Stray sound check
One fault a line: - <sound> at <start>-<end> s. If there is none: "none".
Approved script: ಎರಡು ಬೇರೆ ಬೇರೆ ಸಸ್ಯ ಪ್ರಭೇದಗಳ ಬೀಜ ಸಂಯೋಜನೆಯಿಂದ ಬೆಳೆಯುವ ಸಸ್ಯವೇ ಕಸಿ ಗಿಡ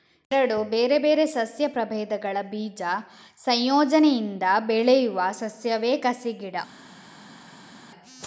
none